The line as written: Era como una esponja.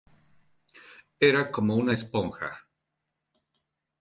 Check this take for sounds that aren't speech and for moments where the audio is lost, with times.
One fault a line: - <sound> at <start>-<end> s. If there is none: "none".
none